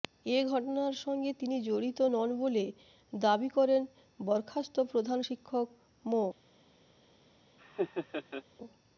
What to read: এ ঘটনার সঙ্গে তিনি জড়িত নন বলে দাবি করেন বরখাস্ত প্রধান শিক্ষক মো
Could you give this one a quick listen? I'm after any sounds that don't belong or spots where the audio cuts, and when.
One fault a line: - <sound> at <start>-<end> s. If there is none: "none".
- laugh at 7.6-8.4 s